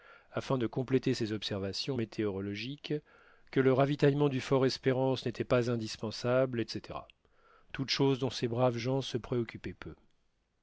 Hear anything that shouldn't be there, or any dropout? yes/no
no